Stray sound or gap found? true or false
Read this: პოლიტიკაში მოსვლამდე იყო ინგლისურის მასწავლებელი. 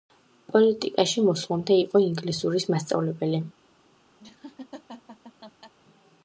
true